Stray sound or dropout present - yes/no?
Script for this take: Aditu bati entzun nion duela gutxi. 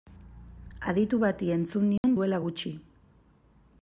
yes